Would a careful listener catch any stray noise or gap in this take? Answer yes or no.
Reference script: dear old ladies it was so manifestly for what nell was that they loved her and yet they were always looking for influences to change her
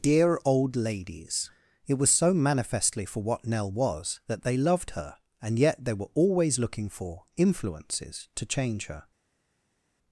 no